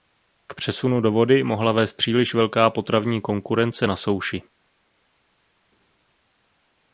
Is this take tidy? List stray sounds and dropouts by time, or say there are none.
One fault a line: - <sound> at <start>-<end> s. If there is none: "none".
none